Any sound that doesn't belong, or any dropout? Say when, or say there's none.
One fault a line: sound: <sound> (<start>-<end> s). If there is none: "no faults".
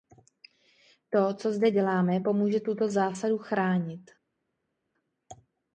no faults